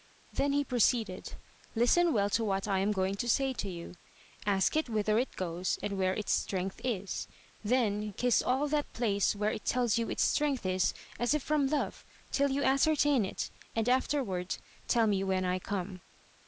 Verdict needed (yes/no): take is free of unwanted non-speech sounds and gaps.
yes